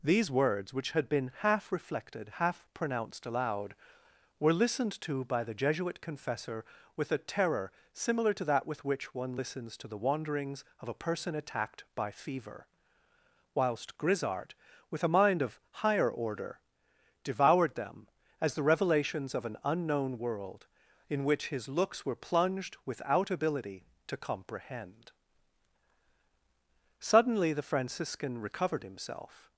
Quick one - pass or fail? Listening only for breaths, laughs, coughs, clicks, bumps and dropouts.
pass